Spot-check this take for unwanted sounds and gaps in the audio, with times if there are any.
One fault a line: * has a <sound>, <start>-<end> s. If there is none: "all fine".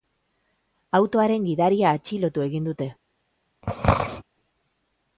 * has a throat clearing, 3.6-4.2 s